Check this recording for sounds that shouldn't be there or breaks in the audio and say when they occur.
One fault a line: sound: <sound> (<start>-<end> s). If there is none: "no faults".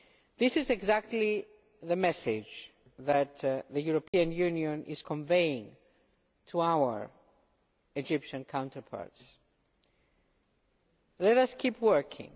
sound: dropout (4.1-4.1 s)